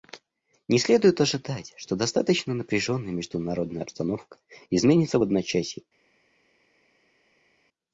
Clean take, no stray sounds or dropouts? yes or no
yes